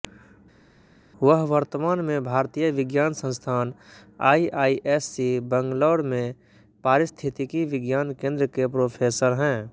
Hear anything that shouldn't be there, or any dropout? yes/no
no